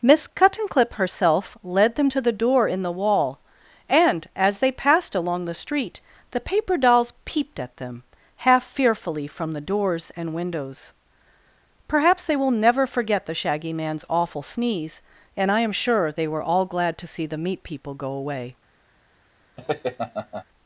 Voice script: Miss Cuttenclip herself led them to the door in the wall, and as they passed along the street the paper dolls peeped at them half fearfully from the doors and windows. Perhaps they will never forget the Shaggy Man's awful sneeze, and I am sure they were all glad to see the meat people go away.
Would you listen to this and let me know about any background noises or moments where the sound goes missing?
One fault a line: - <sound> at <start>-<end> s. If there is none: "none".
- laugh at 19.6-20.4 s